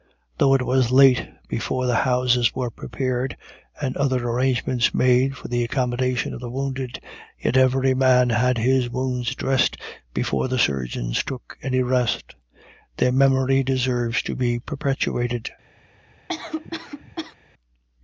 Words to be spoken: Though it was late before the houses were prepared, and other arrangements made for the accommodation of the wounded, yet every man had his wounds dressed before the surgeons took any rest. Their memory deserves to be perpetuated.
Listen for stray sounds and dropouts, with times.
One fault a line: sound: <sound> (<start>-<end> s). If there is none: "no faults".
sound: cough (16.3-17.3 s)